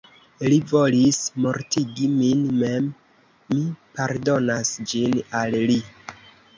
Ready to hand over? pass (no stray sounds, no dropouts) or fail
pass